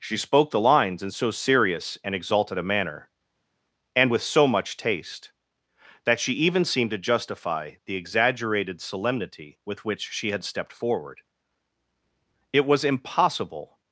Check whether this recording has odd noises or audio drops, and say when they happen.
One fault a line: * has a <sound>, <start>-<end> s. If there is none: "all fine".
all fine